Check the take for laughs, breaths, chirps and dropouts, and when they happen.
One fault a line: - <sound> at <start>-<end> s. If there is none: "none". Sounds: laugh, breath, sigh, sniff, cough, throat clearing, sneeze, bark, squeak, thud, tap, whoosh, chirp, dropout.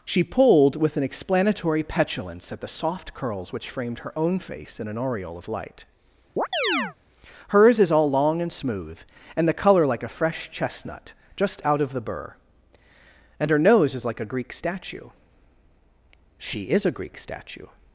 - chirp at 6.4-7.0 s